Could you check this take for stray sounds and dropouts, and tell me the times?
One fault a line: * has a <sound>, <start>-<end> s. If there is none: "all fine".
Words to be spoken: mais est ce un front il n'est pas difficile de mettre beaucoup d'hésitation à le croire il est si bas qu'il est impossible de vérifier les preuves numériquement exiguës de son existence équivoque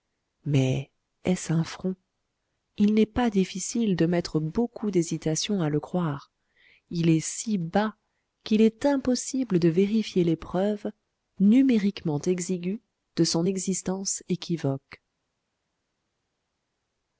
all fine